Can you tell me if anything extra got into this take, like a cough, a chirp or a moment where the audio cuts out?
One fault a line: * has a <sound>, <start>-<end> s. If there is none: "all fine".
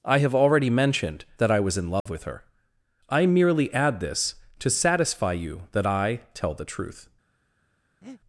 * has a dropout, 2.0-2.1 s
* has a breath, 8.0-8.2 s